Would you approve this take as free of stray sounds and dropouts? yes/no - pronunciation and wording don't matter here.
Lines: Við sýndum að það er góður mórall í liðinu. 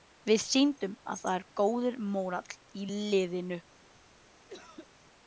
no